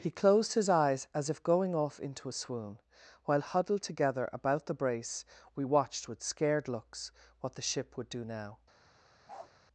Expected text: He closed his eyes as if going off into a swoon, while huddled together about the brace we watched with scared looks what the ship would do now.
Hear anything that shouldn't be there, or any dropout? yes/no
yes